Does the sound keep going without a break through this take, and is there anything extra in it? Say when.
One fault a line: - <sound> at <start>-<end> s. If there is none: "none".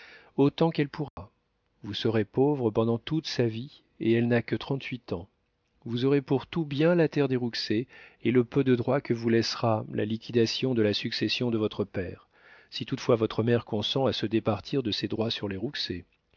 - dropout at 1.1-1.2 s